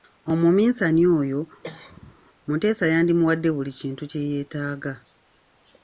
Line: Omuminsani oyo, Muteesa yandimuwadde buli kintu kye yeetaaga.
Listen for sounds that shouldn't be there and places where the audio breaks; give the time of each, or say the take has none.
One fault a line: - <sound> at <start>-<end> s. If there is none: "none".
- cough at 1.6-2.2 s